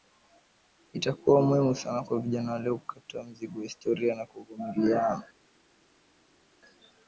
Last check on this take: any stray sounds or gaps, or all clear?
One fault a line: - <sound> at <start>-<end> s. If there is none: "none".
none